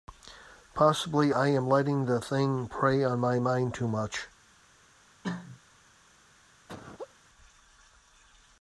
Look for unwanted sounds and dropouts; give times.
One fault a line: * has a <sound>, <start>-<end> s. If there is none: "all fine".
* has a cough, 5.2-5.6 s
* has a laugh, 6.7-7.1 s